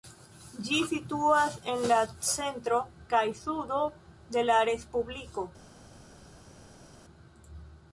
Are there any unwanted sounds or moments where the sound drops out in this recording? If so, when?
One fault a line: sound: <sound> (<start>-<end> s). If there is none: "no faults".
no faults